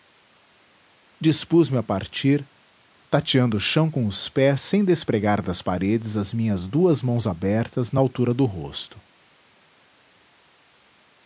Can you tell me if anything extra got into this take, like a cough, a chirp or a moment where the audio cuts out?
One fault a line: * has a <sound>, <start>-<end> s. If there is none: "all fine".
all fine